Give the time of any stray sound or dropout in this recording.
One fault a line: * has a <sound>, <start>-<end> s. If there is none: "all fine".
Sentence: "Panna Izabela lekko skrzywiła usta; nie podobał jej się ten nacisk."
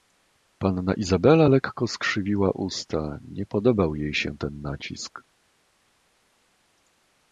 all fine